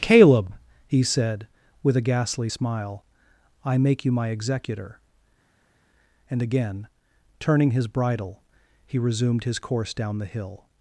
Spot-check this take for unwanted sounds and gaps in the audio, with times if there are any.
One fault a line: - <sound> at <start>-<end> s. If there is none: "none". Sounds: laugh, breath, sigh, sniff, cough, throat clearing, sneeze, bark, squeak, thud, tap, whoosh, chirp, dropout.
none